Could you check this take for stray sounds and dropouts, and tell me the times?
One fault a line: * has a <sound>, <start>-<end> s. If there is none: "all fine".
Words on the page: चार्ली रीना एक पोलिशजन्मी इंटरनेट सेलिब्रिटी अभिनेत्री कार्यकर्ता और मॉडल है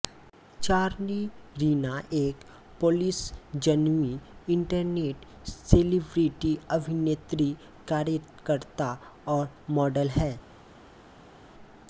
all fine